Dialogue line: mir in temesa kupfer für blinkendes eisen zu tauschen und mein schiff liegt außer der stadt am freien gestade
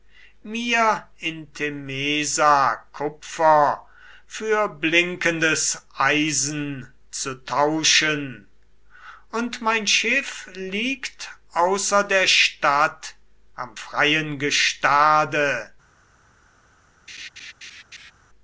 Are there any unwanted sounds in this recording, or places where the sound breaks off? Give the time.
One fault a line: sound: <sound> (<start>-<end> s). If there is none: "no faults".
sound: laugh (17.1-18.1 s)